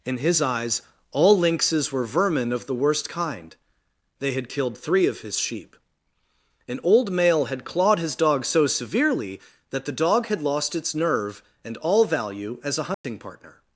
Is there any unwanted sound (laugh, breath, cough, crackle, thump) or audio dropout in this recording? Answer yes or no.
yes